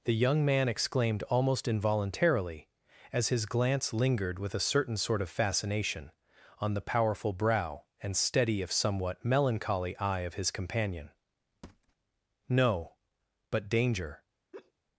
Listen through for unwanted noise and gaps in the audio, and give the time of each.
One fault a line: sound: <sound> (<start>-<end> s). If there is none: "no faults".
sound: thud (11.6-12.0 s)
sound: laugh (14.5-14.7 s)